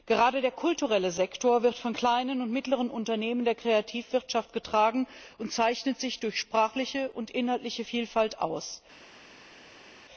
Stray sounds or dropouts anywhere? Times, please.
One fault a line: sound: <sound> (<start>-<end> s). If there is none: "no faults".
no faults